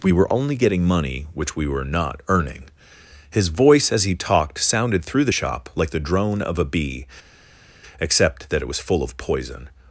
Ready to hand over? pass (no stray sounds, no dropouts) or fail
pass